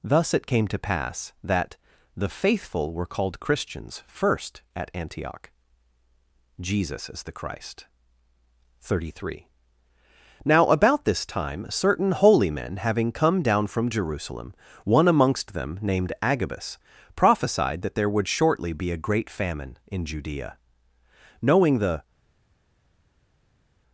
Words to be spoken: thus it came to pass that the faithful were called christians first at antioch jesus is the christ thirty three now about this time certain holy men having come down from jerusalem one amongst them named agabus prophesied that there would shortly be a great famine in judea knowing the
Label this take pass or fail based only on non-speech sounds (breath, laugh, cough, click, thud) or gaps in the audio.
pass